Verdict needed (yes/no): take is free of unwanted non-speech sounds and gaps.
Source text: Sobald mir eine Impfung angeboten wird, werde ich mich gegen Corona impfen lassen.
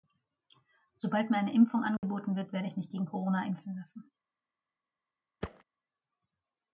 no